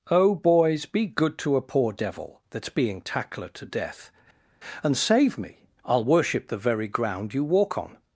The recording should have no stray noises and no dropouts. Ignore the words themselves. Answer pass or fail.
pass